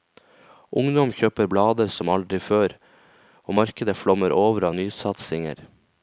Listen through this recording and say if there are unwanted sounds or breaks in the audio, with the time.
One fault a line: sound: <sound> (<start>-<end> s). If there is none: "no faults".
no faults